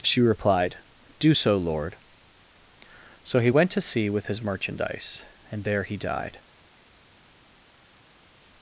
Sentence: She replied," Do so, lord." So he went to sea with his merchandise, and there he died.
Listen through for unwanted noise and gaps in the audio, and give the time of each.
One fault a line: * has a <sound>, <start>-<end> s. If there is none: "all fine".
all fine